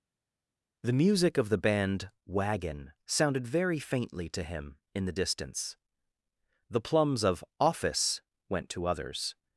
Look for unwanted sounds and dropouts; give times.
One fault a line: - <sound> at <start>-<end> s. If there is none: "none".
none